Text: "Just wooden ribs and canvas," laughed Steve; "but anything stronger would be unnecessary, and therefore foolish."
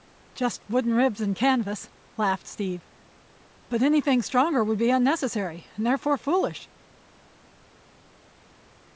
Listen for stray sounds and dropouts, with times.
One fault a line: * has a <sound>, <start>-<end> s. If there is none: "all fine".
all fine